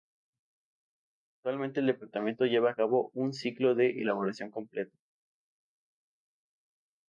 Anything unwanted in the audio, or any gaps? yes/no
no